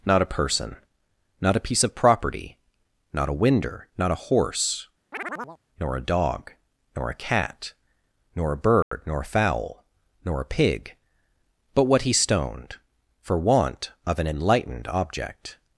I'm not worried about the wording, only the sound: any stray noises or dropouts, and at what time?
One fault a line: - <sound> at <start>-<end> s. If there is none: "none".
- chirp at 5.1-5.6 s
- dropout at 8.8-8.9 s